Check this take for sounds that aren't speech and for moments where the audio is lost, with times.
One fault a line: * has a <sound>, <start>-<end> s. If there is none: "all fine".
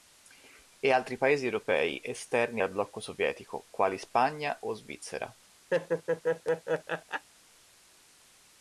* has a laugh, 5.7-7.3 s